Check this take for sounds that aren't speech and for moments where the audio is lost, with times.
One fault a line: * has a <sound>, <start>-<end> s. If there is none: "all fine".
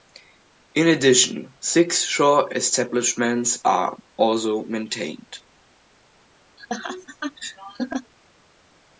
* has a laugh, 6.6-8.1 s